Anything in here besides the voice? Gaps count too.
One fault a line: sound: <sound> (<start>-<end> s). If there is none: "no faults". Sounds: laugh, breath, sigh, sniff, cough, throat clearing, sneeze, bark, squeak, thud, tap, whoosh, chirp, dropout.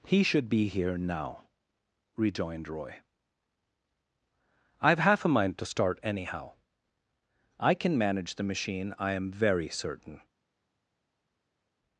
no faults